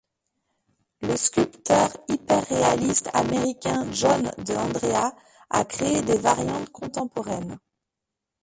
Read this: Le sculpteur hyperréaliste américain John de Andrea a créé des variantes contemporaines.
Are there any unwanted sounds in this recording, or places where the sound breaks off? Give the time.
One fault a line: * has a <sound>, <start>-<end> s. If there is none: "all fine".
all fine